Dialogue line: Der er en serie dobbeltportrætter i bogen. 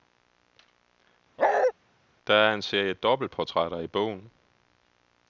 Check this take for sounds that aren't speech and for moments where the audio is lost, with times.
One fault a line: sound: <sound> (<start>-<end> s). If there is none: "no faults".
sound: bark (1.4-1.7 s)